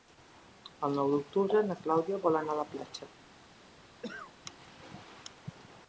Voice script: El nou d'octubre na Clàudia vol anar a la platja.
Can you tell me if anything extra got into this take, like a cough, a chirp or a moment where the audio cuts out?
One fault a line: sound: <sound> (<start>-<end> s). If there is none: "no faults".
sound: cough (4.0-4.3 s)